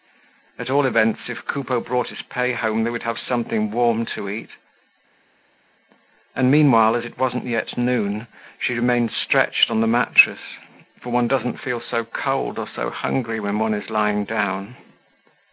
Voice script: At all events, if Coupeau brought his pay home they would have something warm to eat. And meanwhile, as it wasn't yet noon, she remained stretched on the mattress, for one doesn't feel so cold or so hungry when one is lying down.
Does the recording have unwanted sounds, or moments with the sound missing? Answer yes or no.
no